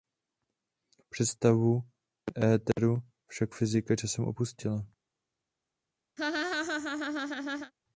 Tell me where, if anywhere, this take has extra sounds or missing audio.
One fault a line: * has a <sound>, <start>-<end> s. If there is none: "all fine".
* has a laugh, 6.2-7.7 s